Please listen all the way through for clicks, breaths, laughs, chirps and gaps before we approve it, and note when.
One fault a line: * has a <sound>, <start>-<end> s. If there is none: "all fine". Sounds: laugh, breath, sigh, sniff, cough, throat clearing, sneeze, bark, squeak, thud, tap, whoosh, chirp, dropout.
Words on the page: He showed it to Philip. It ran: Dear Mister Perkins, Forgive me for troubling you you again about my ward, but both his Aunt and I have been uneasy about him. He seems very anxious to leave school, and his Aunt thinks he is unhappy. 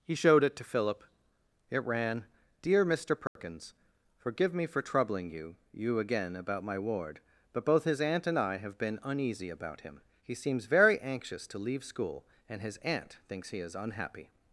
* has a dropout, 3.3-3.4 s